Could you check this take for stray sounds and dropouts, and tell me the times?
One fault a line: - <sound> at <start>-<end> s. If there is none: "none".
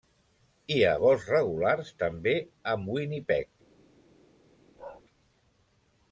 - bark at 4.8-5.0 s